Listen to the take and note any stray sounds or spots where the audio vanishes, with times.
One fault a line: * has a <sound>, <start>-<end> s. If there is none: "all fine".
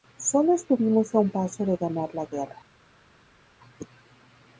all fine